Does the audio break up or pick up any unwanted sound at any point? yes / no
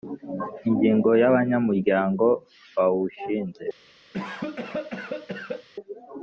yes